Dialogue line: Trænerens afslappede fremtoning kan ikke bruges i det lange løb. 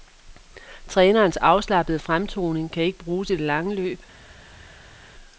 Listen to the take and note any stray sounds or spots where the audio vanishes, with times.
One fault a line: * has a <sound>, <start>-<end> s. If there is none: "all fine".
all fine